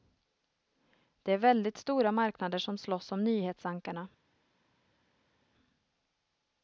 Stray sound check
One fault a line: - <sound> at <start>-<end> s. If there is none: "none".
none